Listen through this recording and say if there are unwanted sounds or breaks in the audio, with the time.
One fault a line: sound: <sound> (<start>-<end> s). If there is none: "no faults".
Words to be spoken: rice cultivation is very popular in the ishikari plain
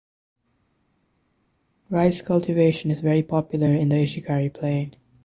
no faults